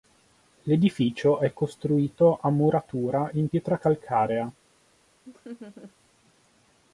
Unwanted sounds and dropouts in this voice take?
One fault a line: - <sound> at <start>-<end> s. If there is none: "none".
- laugh at 5.3-5.9 s